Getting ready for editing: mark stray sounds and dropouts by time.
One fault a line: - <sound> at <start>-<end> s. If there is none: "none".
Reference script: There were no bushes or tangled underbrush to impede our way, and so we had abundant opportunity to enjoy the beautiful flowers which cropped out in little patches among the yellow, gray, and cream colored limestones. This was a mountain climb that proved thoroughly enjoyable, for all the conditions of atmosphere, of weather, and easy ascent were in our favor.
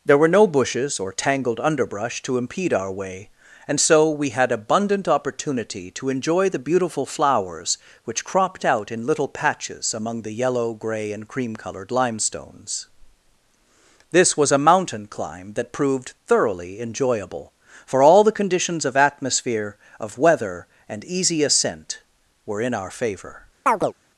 - chirp at 23.7-23.9 s